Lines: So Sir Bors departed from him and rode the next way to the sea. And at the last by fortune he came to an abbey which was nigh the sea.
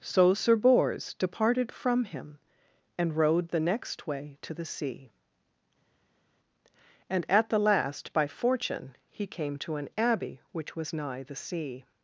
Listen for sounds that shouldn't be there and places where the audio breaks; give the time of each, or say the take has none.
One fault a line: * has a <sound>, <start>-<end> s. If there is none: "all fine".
all fine